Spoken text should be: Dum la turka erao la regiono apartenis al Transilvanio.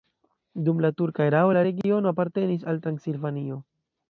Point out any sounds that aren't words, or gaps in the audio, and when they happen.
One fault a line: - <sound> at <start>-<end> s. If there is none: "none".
- dropout at 1.8-1.8 s